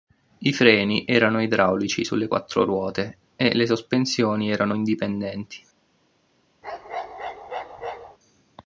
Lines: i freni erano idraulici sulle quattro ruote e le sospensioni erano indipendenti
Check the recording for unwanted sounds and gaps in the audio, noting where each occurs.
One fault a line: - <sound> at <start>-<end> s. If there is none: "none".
- bark at 6.6-8.2 s